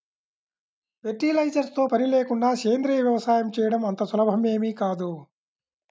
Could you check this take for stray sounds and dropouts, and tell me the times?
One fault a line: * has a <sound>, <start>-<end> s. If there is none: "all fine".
all fine